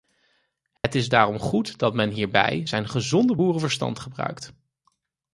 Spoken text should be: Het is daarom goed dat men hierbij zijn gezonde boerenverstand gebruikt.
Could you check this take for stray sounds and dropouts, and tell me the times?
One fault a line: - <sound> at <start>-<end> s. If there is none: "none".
- dropout at 0.8-0.8 s